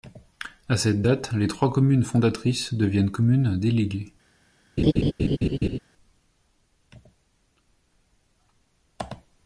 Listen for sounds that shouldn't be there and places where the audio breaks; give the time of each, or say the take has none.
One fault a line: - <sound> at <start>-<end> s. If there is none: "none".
- laugh at 4.8-5.8 s